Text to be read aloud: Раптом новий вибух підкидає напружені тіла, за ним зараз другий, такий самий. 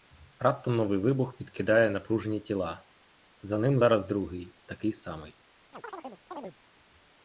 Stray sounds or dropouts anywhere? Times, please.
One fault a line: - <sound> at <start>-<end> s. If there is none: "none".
- chirp at 5.7-6.6 s